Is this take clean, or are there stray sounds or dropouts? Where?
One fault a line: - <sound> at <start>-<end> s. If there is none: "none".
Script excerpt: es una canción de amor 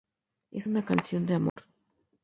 - dropout at 1.5-1.6 s